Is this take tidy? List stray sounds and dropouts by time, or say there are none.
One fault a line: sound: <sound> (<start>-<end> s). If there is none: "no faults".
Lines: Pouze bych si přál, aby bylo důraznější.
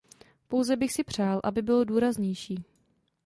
no faults